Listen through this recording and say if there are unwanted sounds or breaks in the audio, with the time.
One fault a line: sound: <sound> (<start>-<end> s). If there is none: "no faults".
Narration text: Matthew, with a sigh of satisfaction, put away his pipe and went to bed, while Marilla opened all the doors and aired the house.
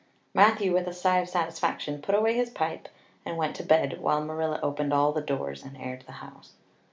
no faults